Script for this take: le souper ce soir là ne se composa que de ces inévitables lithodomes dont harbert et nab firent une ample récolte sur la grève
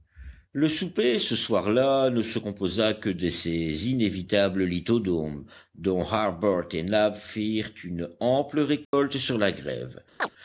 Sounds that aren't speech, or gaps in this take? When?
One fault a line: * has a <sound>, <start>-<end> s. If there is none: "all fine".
* has a dropout, 8.8-8.9 s
* has a chirp, 10.2-10.3 s